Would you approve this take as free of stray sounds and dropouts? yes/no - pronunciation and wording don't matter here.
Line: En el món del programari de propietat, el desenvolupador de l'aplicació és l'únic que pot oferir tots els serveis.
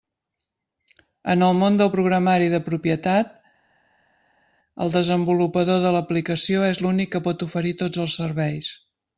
yes